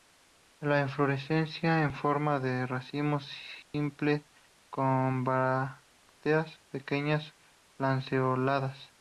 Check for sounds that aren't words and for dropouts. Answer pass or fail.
fail